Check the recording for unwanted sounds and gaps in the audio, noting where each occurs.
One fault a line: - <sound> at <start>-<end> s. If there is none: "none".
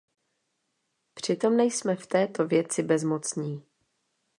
none